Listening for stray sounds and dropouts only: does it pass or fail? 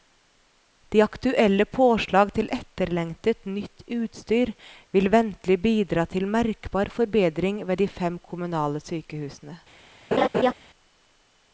fail